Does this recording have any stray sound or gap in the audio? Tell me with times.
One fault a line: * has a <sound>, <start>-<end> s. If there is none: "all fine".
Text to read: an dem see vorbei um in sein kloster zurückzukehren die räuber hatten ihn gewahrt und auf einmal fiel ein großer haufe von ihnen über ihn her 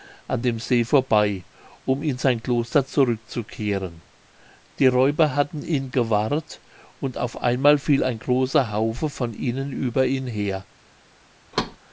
* has a thud, 11.5-11.8 s